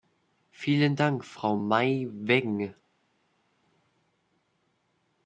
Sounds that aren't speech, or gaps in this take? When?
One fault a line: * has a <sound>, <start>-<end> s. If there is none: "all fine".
all fine